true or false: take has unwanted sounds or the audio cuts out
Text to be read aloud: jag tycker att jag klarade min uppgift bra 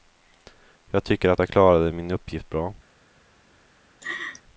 true